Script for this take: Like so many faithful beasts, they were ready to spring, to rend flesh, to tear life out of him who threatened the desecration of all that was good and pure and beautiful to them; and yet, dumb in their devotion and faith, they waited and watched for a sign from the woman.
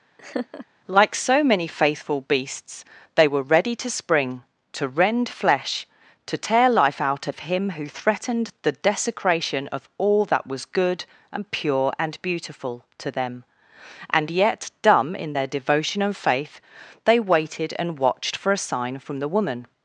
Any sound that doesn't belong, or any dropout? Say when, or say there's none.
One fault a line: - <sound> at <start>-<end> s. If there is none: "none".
- laugh at 0.2-0.7 s